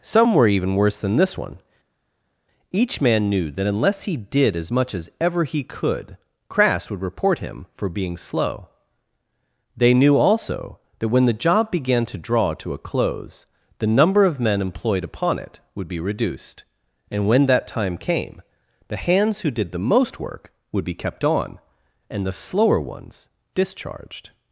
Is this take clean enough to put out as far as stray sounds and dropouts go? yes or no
yes